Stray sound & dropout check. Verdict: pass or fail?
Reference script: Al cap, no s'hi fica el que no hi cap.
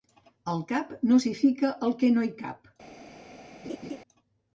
fail